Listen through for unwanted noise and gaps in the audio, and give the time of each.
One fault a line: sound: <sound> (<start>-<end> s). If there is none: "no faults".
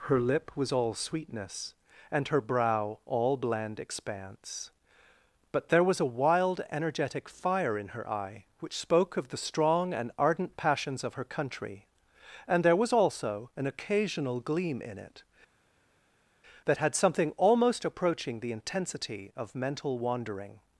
no faults